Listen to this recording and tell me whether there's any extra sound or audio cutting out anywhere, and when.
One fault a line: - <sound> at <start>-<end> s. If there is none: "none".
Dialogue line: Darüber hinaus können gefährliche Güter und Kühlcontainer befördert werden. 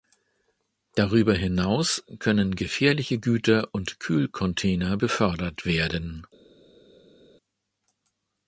none